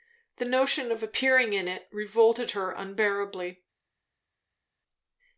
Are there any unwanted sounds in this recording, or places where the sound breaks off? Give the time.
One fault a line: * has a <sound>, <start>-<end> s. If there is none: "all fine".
all fine